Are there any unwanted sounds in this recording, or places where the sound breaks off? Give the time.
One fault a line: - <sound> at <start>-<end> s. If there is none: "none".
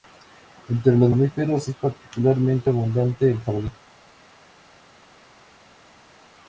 none